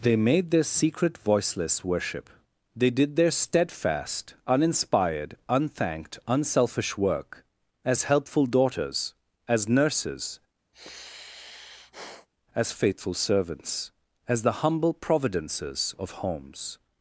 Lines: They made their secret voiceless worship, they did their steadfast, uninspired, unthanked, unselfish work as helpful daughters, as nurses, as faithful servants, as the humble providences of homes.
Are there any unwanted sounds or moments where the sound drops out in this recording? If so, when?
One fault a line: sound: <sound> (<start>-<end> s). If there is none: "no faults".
sound: sigh (10.7-12.3 s)